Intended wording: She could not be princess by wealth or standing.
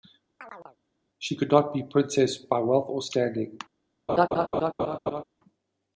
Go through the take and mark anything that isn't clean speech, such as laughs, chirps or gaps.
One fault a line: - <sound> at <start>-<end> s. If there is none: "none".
- chirp at 0.4-0.8 s
- laugh at 4.1-5.2 s